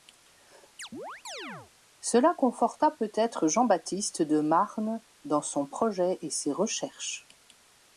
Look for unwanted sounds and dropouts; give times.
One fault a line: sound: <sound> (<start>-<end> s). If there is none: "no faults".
sound: chirp (0.8-1.7 s)